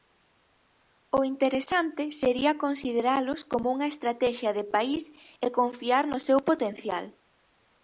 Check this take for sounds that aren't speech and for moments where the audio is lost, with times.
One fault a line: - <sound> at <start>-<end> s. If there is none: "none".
none